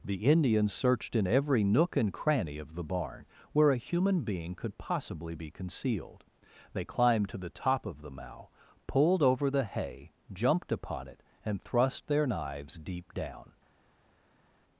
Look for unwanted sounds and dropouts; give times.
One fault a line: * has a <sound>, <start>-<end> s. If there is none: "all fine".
all fine